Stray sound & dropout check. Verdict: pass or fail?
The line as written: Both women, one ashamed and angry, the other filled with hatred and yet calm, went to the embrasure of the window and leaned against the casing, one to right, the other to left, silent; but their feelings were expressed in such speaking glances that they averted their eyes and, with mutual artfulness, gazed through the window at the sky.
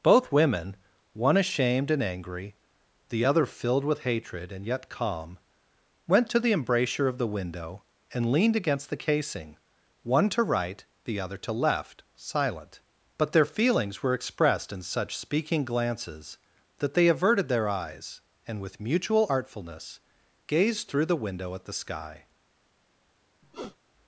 fail